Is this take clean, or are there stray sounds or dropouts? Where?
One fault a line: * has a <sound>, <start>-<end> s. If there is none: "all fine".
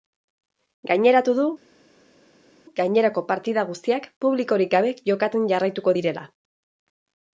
all fine